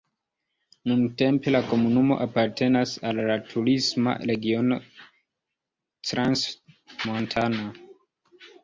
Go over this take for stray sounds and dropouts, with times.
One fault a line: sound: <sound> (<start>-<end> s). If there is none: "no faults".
no faults